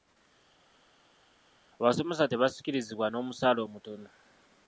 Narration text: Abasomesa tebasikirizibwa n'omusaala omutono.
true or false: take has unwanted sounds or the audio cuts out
false